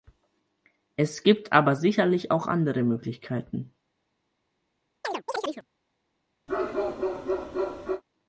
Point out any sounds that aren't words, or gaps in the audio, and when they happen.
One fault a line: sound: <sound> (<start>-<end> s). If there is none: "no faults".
sound: chirp (5.0-5.7 s)
sound: bark (6.5-8.0 s)